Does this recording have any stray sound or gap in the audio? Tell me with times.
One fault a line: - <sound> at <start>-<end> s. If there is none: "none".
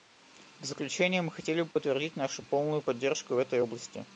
- dropout at 1.7-1.8 s